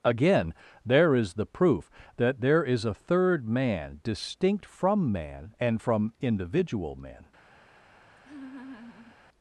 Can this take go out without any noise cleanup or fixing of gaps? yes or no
no